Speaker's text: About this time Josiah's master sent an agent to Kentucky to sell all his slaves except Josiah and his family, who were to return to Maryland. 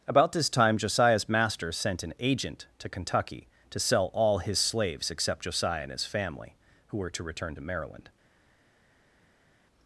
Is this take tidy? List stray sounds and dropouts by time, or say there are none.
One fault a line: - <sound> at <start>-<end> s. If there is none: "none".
none